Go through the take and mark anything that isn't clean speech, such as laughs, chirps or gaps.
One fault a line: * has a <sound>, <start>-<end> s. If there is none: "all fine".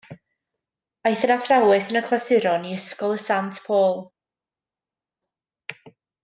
all fine